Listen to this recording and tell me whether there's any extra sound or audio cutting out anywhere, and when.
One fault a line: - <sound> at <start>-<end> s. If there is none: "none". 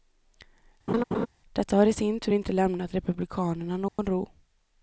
- laugh at 0.9-1.3 s
- dropout at 3.9-4.0 s